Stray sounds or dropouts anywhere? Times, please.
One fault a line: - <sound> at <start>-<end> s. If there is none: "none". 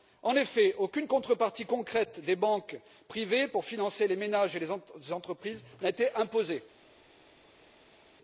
none